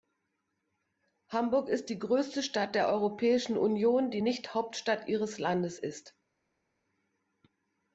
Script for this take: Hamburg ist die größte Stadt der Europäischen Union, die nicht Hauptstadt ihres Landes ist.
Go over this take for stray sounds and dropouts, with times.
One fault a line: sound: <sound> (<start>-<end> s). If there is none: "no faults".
no faults